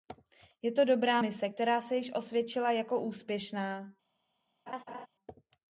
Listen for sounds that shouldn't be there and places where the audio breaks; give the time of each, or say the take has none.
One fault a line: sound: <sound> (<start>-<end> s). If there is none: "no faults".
sound: laugh (4.7-5.1 s)